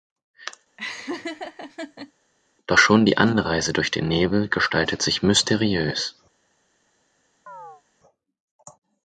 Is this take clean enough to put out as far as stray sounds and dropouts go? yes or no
no